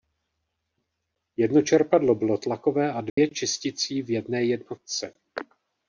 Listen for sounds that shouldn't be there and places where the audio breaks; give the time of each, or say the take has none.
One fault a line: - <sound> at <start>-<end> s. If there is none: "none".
- dropout at 3.1-3.2 s